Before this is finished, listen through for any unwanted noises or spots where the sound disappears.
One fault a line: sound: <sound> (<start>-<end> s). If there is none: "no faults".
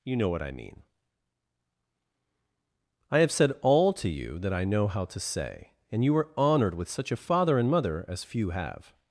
no faults